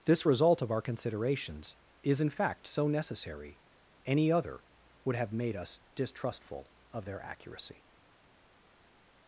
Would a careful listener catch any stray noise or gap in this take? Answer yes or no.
no